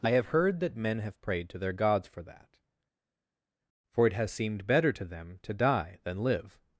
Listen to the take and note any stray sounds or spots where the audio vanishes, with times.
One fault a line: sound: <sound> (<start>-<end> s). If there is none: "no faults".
no faults